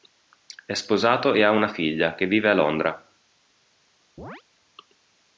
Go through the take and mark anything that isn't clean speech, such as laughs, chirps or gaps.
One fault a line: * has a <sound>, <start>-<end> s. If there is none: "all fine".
* has a chirp, 4.2-4.4 s